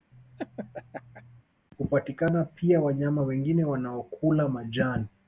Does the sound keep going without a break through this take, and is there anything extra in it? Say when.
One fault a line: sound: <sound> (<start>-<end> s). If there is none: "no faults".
sound: laugh (0.1-1.4 s)